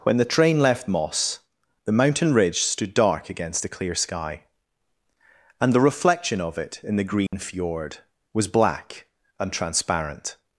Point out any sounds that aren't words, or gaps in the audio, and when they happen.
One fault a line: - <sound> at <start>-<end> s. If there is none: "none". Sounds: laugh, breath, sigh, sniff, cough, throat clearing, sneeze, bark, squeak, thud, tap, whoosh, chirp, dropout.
- dropout at 7.3-7.3 s